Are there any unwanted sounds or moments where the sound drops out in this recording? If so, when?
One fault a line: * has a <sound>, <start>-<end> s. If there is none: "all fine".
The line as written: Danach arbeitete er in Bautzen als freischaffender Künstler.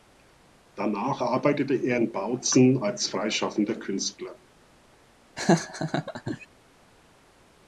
* has a laugh, 5.4-6.5 s